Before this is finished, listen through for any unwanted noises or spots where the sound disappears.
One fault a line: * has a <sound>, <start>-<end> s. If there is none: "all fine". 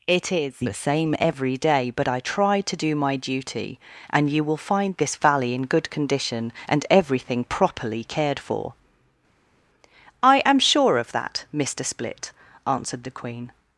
all fine